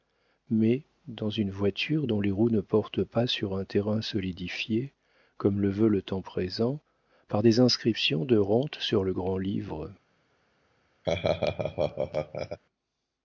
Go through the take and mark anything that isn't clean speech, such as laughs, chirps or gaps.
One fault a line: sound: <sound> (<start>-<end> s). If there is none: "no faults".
sound: laugh (11.0-12.6 s)